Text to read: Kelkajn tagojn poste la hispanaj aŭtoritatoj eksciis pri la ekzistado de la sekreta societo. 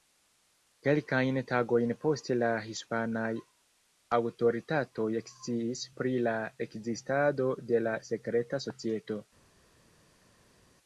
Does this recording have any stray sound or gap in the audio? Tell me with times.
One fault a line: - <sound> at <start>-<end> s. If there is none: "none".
none